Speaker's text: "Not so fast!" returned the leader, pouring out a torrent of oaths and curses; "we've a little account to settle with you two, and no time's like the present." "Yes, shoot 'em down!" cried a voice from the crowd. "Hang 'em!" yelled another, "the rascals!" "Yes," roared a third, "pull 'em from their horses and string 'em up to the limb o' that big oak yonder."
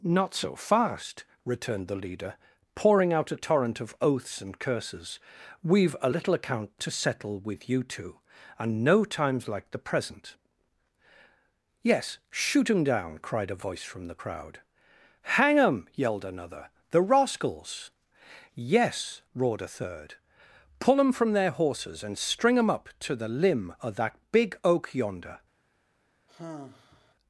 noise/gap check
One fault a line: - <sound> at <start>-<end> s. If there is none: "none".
- sigh at 26.3-27.1 s